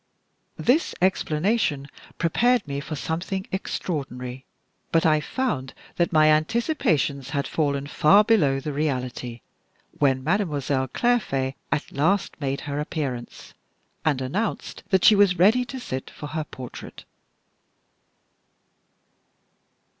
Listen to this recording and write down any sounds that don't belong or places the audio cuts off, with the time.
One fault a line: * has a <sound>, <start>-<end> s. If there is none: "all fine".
all fine